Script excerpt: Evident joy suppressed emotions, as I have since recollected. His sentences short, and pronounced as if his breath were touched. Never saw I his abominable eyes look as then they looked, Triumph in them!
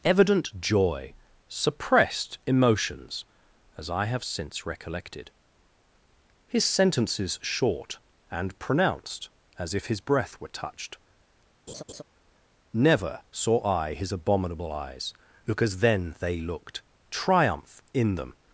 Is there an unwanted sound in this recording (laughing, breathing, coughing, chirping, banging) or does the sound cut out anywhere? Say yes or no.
yes